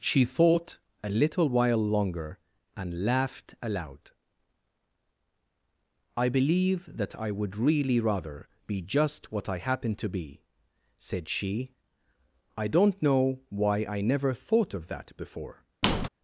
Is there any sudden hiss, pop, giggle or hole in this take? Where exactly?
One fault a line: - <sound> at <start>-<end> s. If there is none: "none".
- squeak at 15.8-16.1 s